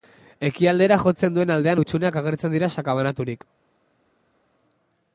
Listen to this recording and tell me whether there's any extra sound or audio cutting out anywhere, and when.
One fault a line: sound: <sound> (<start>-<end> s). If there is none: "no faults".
no faults